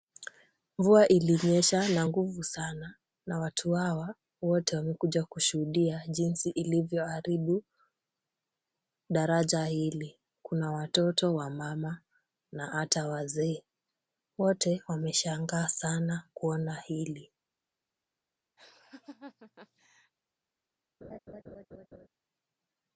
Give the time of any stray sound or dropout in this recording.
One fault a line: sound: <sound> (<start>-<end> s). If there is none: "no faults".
sound: laugh (18.6-20.1 s)
sound: laugh (21.0-22.1 s)